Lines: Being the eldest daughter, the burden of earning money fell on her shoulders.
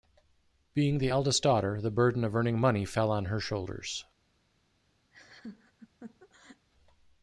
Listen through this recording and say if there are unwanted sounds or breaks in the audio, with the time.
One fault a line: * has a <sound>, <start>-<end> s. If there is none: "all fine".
* has a laugh, 5.1-6.7 s